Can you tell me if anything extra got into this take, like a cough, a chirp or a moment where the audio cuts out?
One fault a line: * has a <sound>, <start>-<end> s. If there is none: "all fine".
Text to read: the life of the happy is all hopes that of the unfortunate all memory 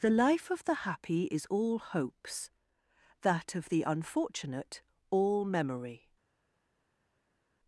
all fine